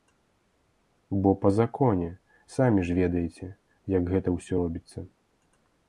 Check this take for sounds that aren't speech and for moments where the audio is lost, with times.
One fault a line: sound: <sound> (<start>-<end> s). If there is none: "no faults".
no faults